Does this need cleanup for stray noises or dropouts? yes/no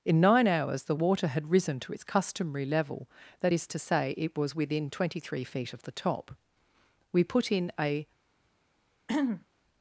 yes